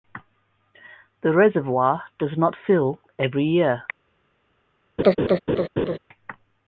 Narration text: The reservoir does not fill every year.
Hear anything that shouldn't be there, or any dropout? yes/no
yes